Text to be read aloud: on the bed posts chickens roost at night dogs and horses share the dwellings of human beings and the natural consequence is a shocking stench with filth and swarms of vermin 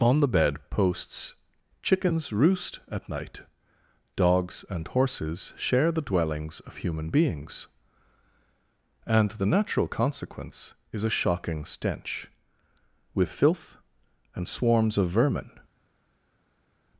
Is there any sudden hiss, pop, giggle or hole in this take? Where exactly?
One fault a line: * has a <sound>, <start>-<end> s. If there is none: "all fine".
all fine